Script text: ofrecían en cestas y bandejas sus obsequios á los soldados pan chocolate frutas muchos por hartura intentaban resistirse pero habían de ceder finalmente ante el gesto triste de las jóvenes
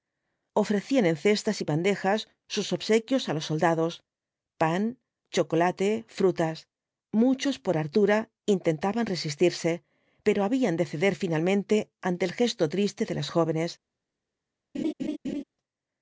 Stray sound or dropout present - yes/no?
yes